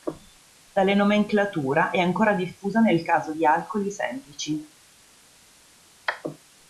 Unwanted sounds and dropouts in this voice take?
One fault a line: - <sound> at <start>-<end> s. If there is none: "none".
none